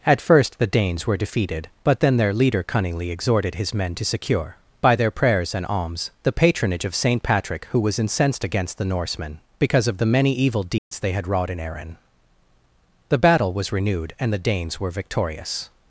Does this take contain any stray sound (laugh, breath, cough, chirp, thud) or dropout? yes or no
yes